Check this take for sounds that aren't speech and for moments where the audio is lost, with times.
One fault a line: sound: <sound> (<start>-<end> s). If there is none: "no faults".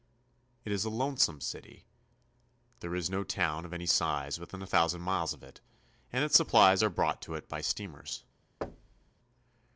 sound: thud (8.6-9.1 s)